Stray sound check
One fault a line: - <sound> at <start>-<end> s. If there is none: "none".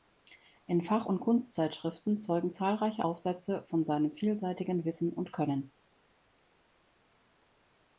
none